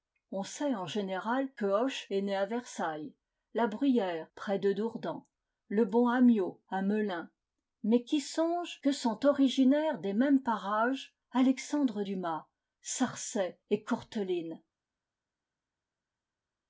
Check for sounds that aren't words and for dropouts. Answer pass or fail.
pass